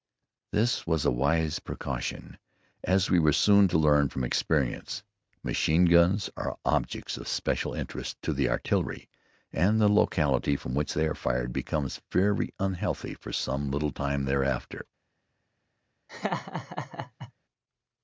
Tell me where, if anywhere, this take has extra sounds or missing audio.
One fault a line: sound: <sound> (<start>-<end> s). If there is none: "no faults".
sound: laugh (16.1-17.3 s)